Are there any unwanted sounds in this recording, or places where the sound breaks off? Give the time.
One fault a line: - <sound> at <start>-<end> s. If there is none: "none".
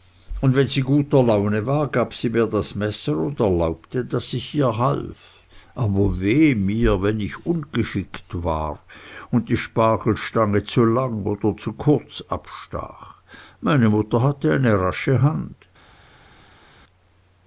none